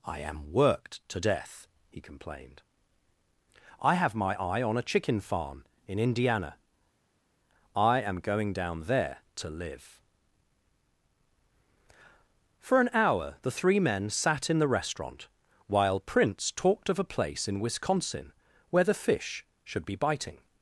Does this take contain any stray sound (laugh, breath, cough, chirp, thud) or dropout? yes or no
no